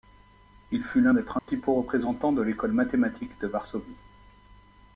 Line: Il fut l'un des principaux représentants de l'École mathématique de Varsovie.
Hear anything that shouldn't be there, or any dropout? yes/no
yes